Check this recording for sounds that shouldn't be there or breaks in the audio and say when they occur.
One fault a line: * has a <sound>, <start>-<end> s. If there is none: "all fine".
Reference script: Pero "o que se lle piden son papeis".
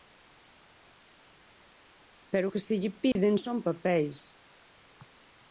* has a dropout, 3.1-3.2 s